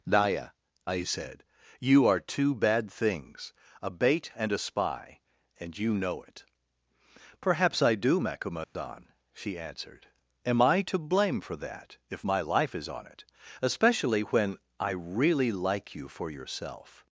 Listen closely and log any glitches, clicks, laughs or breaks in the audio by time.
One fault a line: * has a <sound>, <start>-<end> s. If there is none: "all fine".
* has a dropout, 8.6-8.8 s